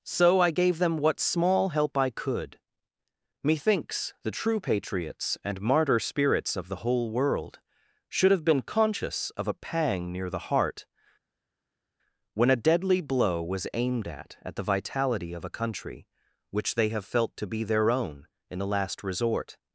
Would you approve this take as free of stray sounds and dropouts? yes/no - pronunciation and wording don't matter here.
yes